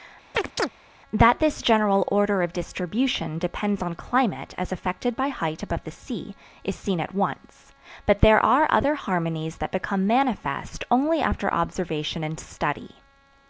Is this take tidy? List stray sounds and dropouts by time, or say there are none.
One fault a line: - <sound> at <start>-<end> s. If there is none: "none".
- chirp at 0.3-0.7 s